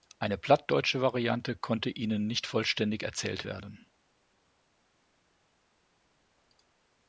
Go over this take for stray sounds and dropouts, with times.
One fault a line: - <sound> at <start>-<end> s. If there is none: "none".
none